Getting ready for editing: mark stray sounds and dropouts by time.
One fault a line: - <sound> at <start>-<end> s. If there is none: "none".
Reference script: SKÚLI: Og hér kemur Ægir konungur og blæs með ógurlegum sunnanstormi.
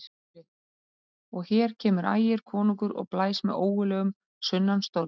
none